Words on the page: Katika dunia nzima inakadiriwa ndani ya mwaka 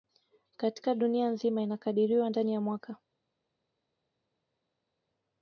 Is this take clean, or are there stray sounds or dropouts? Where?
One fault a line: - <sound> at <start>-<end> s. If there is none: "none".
none